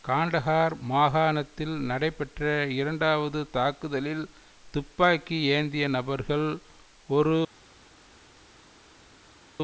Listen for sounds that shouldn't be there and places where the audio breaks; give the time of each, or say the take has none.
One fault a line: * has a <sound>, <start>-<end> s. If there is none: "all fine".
all fine